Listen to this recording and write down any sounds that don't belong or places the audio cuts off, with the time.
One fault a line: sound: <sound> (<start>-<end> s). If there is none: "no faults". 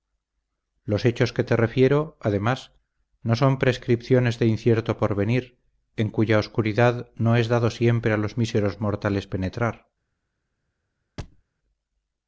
sound: thud (11.2-11.4 s)